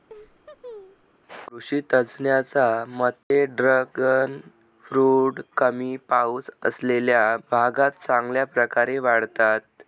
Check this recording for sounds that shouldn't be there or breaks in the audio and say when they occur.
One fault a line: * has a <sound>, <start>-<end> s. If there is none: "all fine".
* has a laugh, 0.1-1.1 s
* has a dropout, 3.2-3.3 s